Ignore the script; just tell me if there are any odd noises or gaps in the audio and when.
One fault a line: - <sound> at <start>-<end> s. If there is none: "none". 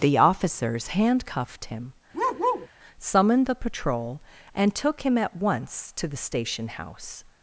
- bark at 2.1-2.7 s